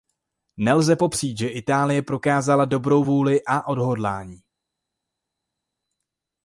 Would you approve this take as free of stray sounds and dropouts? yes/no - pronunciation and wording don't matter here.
yes